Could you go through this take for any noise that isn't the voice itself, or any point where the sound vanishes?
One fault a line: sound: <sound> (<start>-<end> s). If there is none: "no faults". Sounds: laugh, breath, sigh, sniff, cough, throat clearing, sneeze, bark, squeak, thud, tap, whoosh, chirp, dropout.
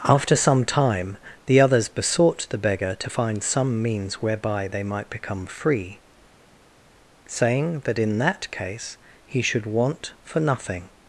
no faults